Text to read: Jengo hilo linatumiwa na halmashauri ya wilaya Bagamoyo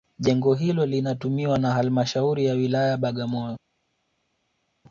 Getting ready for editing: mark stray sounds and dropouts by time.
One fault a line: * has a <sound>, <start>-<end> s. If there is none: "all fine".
all fine